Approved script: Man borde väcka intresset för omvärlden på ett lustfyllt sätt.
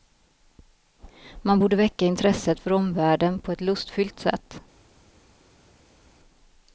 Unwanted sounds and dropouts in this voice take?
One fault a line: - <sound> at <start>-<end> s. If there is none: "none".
none